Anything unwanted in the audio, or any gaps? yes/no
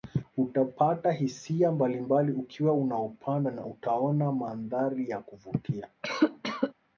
yes